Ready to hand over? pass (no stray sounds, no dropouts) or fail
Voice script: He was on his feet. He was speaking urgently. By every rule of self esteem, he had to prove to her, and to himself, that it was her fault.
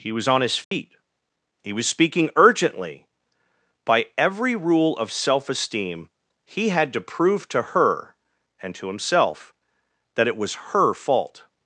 fail